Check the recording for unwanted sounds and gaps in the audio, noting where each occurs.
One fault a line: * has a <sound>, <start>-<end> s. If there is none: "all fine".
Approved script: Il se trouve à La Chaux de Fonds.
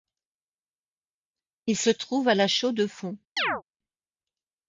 * has a chirp, 3.4-3.6 s